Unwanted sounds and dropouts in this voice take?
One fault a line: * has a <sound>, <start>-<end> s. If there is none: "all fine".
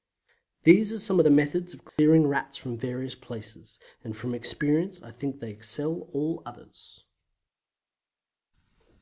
* has a dropout, 1.9-2.0 s